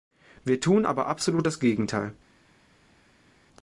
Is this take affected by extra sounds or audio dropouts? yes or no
no